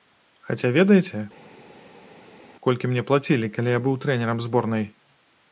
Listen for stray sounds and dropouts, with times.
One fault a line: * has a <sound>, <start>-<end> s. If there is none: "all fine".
all fine